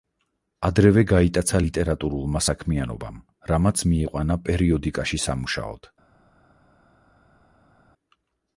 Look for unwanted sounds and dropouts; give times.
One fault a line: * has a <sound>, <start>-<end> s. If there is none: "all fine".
all fine